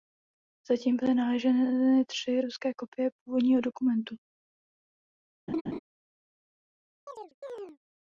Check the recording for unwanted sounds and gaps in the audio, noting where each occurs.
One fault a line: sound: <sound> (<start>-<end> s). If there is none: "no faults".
sound: laugh (5.5-5.8 s)
sound: chirp (7.1-7.8 s)